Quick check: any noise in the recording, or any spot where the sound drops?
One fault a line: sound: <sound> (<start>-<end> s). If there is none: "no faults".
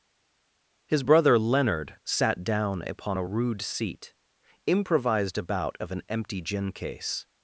no faults